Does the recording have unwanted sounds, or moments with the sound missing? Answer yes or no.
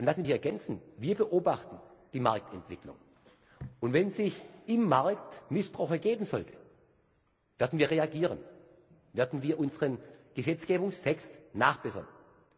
no